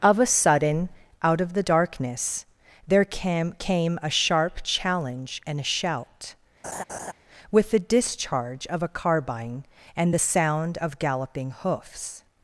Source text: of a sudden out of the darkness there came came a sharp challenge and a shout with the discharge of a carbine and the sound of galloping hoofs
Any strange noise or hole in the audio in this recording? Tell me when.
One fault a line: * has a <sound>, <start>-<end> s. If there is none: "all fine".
* has a laugh, 6.6-7.1 s